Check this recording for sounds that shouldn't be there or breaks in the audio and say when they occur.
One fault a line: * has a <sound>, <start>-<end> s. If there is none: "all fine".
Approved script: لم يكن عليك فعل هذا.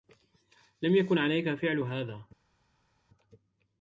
all fine